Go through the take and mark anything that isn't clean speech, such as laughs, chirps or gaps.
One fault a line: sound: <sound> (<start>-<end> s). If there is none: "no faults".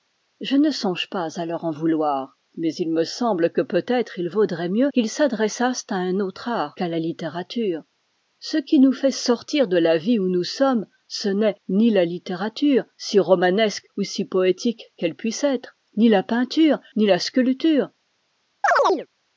sound: chirp (18.6-19.1 s)